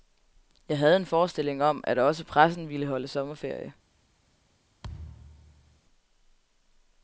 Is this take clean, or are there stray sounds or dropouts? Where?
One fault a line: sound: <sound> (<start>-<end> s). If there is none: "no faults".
sound: thud (4.8-5.8 s)